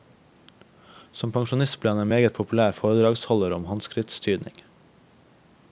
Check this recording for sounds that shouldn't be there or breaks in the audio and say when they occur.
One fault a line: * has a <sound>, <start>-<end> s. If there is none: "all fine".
all fine